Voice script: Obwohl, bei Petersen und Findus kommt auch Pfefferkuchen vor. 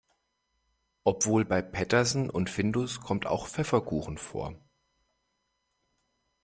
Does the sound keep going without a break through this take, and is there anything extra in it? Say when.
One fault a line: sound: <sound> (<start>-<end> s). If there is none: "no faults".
no faults